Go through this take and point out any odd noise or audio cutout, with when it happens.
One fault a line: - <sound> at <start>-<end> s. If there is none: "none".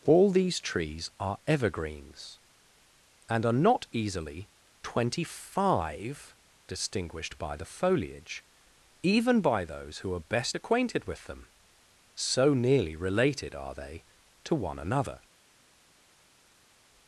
none